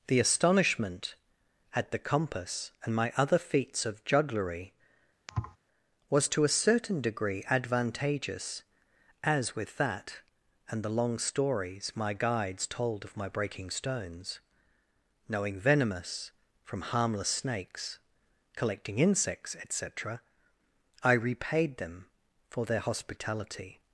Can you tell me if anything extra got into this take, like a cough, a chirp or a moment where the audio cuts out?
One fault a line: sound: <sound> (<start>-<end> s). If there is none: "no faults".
sound: thud (5.3-5.6 s)